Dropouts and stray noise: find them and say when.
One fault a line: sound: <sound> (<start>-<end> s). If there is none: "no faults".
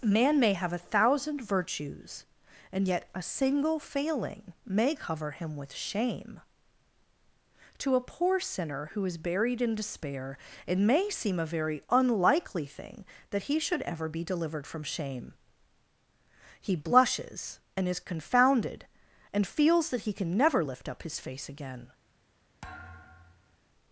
sound: thud (22.6-23.6 s)